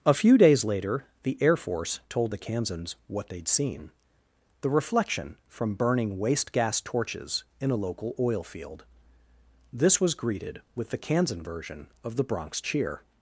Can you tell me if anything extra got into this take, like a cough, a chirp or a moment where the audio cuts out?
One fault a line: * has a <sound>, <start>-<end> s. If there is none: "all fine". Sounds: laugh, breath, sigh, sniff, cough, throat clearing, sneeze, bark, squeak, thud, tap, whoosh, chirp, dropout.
all fine